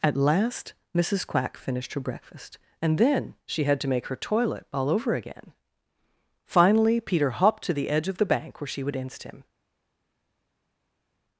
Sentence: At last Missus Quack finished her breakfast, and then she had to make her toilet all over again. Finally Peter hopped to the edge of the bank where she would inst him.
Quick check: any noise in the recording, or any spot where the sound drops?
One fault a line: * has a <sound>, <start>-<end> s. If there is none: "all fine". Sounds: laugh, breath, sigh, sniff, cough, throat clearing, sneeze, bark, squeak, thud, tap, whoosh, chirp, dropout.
all fine